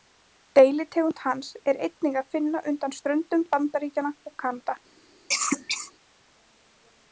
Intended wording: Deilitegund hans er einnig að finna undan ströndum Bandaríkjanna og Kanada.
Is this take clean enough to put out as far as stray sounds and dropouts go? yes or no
no